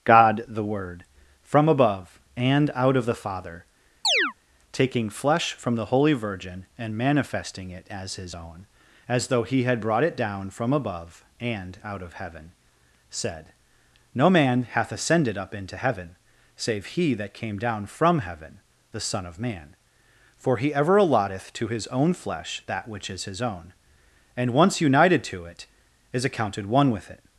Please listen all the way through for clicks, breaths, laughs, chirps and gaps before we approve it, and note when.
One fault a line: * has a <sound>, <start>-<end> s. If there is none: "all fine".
* has a chirp, 4.0-4.3 s